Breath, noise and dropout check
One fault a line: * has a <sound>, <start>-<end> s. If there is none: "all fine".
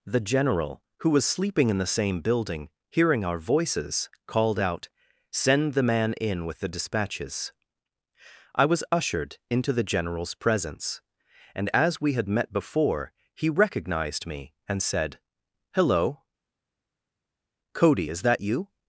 all fine